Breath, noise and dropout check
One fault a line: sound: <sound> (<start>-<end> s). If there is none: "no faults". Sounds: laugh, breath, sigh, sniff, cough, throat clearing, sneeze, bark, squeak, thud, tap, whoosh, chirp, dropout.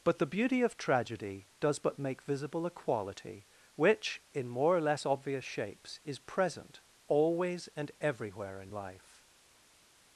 no faults